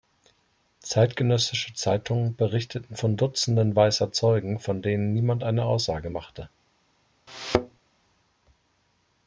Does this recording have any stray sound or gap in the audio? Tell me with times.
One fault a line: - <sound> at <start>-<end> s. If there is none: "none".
- thud at 7.3-7.8 s